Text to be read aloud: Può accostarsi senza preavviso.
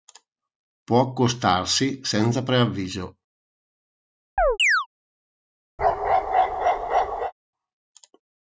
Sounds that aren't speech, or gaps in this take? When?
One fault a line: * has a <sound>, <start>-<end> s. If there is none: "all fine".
* has a chirp, 4.4-4.9 s
* has a bark, 5.8-7.3 s